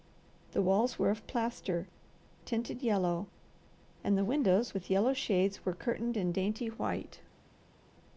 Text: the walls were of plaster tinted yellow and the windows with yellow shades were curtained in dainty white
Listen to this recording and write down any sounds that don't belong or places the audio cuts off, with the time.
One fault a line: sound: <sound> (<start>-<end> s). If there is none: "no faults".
no faults